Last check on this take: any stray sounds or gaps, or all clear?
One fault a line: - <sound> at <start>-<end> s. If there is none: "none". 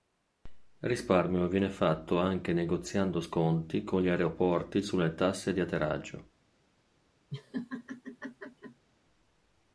- laugh at 7.3-8.9 s